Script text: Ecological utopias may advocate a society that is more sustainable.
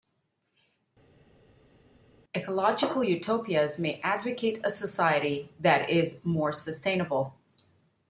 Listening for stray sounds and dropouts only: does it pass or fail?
pass